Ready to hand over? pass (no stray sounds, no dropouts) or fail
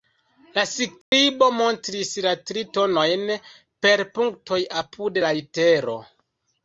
fail